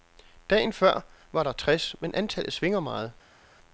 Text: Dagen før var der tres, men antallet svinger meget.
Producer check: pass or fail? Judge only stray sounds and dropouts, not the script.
pass